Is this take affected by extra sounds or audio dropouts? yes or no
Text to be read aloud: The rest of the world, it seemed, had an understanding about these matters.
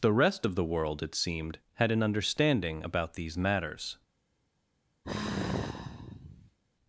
yes